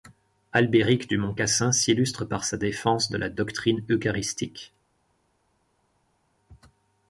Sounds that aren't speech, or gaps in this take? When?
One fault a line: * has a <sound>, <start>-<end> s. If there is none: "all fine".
all fine